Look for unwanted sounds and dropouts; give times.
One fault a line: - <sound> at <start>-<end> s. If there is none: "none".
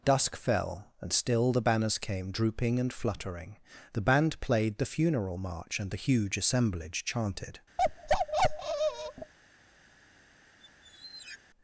- bark at 7.8-9.3 s
- squeak at 10.6-11.4 s